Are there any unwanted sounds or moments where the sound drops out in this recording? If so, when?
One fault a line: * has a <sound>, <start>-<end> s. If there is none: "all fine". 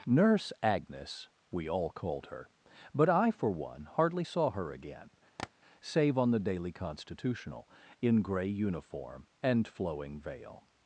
* has a tap, 5.4-5.5 s